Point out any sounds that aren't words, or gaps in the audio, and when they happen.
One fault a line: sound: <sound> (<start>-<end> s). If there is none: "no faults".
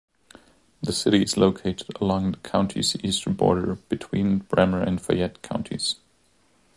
no faults